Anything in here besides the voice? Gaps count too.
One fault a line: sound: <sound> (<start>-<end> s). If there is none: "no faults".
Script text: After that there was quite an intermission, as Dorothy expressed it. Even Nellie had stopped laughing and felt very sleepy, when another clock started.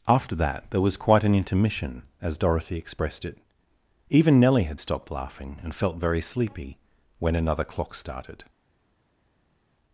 no faults